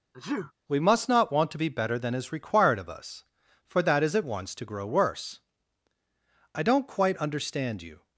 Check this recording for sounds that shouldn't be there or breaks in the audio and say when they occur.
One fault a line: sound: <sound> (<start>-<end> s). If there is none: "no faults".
sound: sneeze (0.1-0.5 s)